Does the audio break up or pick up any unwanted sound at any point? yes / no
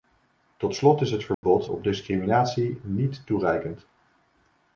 yes